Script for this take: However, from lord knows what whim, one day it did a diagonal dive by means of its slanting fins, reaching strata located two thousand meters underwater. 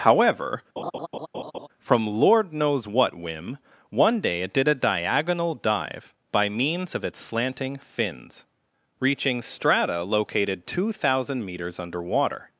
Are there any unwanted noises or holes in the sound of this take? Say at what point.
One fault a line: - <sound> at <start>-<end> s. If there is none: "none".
- laugh at 0.8-1.7 s